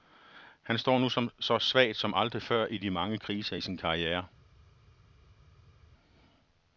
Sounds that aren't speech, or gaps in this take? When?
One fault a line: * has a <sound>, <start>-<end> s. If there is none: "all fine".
all fine